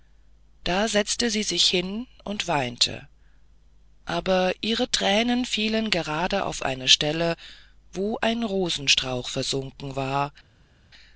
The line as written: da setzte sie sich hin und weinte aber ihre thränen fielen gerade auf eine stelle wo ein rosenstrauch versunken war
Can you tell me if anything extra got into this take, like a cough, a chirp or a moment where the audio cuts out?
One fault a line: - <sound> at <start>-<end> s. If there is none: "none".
none